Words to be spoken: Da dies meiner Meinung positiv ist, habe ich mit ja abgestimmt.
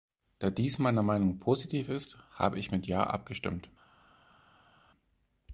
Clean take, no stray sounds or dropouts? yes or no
yes